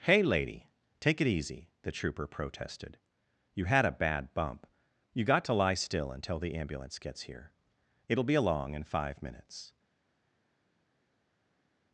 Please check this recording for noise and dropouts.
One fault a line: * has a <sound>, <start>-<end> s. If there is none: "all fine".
all fine